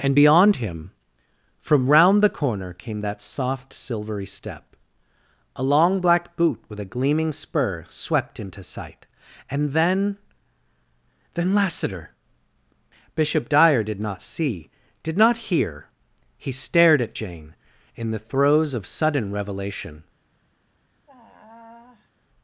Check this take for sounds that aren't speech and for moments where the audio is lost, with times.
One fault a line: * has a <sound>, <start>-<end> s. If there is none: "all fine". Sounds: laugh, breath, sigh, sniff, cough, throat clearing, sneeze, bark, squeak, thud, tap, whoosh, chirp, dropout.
* has a sigh, 21.1-22.1 s